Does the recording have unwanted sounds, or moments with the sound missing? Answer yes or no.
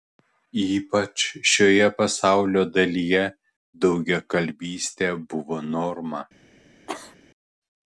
yes